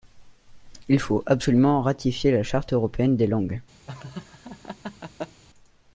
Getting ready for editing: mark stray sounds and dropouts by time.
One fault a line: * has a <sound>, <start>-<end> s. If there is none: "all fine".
* has a laugh, 3.9-5.4 s